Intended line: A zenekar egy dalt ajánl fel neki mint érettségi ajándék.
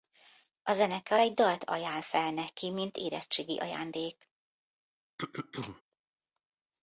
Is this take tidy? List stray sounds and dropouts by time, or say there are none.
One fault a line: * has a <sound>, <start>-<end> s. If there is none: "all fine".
* has a throat clearing, 5.2-5.8 s